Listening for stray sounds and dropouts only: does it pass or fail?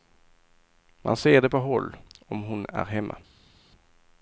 pass